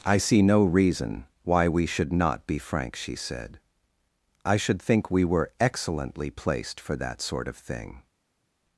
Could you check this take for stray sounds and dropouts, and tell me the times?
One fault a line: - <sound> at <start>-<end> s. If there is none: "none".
none